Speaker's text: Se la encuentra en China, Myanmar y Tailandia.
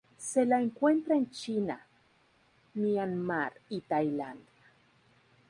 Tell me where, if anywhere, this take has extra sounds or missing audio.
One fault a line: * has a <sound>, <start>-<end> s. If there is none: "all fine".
all fine